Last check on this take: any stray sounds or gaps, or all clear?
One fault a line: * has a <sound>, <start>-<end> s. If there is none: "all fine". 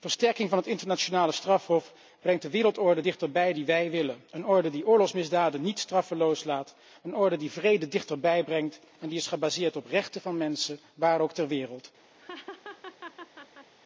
* has a laugh, 12.2-13.7 s